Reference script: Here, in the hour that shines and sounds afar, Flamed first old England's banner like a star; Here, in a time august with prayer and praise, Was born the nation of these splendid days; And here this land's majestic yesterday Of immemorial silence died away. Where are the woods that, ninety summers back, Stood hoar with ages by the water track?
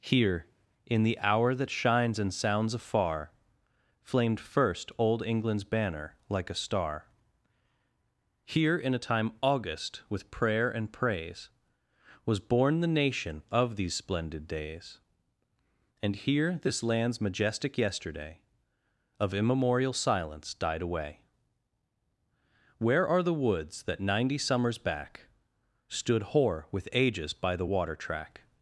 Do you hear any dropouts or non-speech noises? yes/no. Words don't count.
no